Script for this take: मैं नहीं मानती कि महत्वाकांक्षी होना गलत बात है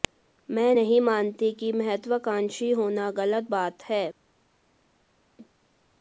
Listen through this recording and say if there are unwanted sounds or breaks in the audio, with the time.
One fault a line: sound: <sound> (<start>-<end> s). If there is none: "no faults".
no faults